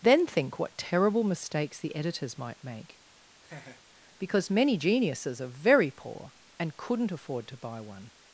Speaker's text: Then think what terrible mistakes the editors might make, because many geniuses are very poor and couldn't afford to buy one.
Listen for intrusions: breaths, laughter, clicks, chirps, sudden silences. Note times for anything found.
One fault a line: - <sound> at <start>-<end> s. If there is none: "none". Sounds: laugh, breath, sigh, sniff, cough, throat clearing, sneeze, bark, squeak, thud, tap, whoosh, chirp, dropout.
- laugh at 3.4-3.8 s